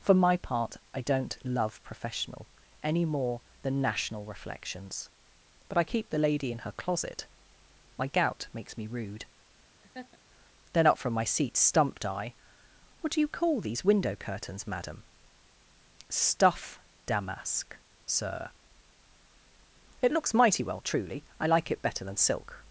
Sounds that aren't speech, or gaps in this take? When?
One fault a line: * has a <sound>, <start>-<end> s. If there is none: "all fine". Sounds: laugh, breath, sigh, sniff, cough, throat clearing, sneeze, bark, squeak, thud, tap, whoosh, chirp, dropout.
* has a laugh, 9.8-10.2 s